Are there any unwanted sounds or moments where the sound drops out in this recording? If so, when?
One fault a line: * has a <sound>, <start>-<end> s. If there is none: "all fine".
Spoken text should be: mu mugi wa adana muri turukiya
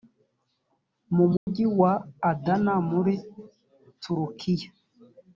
* has a dropout, 1.4-1.5 s